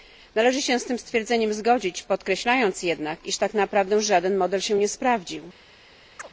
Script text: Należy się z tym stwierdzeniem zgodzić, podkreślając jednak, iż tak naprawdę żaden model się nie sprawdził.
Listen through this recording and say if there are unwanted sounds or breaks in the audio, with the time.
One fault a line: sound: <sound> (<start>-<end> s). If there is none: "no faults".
sound: chirp (6.2-6.3 s)